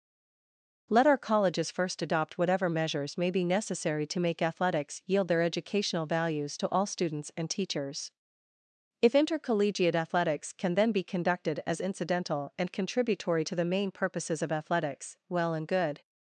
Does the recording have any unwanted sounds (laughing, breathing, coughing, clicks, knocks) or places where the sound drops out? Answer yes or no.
no